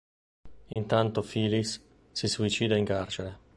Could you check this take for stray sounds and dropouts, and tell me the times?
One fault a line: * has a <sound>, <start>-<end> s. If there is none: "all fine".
* has a dropout, 0.7-0.8 s